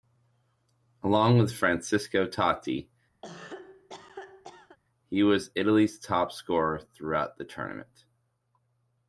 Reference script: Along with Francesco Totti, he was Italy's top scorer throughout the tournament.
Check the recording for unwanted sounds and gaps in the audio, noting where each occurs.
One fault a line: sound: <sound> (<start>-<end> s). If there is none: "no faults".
sound: cough (3.2-4.8 s)